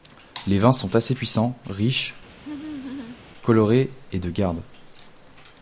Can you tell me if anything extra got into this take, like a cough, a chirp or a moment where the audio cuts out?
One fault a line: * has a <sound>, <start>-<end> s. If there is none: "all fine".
* has a laugh, 2.3-3.2 s